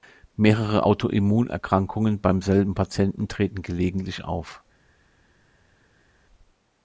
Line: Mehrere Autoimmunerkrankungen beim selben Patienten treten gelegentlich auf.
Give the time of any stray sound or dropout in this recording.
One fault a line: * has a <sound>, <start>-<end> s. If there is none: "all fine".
all fine